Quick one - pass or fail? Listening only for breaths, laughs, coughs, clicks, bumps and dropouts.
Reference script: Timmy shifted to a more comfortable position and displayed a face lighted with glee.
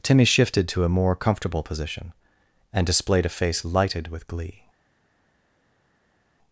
pass